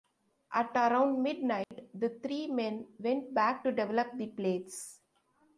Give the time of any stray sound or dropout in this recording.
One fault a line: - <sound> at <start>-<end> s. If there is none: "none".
- dropout at 1.6-1.7 s